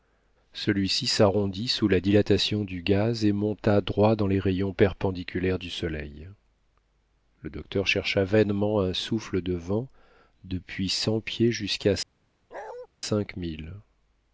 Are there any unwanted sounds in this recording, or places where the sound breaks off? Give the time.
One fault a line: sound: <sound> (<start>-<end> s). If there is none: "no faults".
sound: bark (12.5-12.9 s)